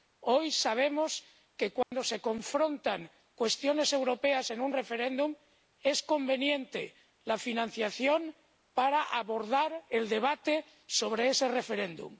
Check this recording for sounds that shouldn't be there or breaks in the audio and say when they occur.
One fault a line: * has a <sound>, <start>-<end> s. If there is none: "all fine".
* has a dropout, 1.8-1.9 s